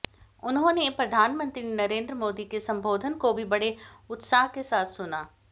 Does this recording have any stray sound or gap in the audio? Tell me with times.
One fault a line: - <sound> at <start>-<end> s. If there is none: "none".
none